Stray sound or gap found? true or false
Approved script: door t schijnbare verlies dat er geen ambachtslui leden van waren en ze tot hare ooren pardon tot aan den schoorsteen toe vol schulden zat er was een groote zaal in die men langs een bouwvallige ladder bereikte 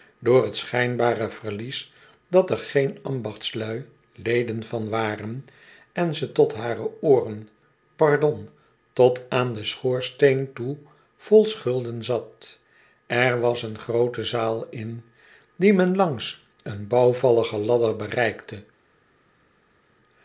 false